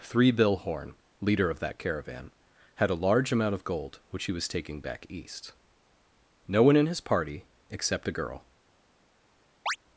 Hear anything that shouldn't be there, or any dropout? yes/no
yes